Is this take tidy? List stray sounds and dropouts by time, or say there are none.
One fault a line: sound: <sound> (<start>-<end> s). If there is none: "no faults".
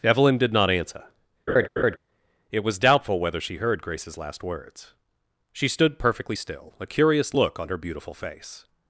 sound: laugh (1.5-2.0 s)